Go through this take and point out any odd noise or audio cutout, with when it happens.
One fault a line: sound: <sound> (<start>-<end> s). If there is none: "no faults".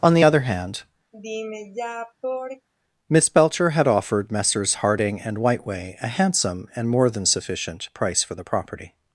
sound: sigh (1.1-2.7 s)